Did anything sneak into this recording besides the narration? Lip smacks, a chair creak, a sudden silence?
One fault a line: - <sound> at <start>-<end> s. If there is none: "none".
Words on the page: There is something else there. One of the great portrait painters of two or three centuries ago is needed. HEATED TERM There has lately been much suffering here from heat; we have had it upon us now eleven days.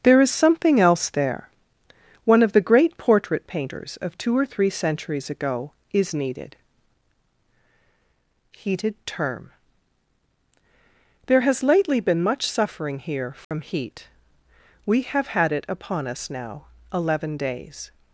- dropout at 13.4-13.5 s